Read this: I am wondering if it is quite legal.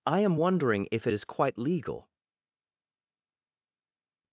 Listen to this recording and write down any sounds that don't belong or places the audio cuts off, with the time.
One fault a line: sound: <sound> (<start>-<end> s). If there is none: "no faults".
no faults